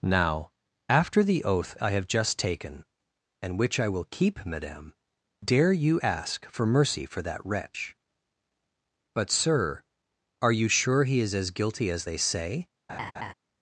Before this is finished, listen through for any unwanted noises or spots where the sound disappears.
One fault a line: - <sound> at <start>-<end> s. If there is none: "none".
- laugh at 12.9-13.3 s